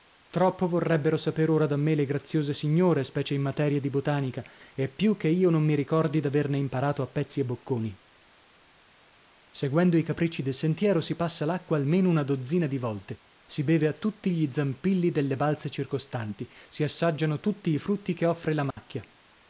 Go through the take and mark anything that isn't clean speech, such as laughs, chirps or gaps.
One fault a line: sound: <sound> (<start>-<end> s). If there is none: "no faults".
sound: dropout (18.7-18.8 s)